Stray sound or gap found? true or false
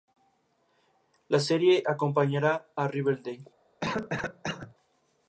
true